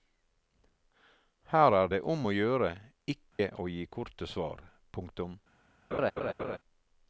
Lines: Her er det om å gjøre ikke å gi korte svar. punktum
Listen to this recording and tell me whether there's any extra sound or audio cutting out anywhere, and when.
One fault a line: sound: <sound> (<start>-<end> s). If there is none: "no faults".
sound: dropout (3.3-3.4 s)
sound: laugh (5.9-6.6 s)